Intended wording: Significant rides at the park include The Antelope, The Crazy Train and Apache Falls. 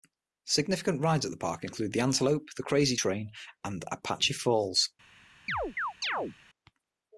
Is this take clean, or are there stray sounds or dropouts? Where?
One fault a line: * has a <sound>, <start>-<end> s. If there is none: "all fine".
* has a chirp, 5.5-6.4 s